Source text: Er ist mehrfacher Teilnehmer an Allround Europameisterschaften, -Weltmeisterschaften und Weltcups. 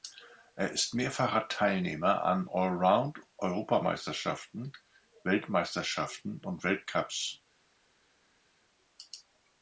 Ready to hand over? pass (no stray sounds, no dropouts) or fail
pass